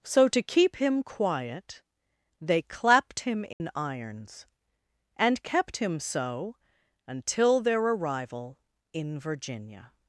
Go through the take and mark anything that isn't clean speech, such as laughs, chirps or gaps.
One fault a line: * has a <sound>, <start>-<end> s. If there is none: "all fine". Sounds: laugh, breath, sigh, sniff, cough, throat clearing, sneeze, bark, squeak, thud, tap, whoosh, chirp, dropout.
* has a dropout, 3.5-3.6 s